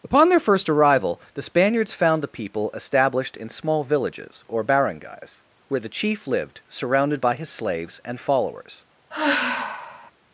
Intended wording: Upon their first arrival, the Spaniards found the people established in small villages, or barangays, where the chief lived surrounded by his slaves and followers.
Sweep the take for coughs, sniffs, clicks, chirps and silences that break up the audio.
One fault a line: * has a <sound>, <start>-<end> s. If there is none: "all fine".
* has a sigh, 9.1-10.1 s